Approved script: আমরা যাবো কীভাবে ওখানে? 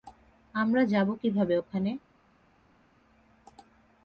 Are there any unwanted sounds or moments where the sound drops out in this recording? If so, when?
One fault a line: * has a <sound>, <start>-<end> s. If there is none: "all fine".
all fine